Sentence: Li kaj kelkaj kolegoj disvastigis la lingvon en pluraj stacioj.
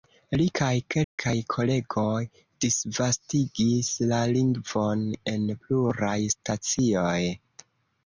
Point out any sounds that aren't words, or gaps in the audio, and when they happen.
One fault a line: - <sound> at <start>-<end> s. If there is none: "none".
- dropout at 1.0-1.2 s